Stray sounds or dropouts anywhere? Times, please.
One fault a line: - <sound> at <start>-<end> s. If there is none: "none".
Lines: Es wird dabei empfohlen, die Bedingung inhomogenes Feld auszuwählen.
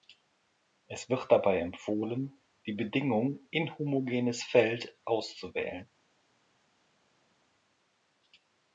none